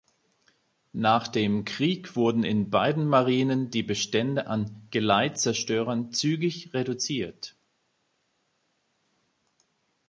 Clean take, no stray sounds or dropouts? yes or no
yes